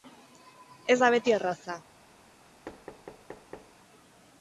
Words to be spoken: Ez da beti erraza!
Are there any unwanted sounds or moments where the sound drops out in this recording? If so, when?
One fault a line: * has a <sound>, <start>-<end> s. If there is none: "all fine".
* has a thud, 2.7-3.7 s